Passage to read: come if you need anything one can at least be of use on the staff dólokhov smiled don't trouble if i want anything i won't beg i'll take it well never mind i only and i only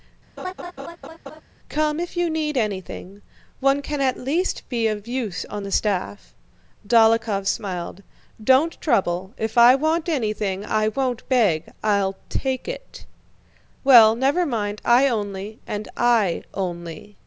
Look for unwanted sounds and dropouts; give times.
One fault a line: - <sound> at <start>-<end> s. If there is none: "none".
- laugh at 0.4-1.4 s